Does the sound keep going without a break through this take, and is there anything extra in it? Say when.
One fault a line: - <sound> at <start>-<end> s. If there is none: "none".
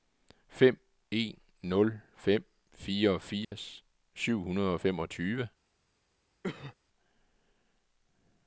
- dropout at 3.4-3.5 s
- cough at 6.4-6.8 s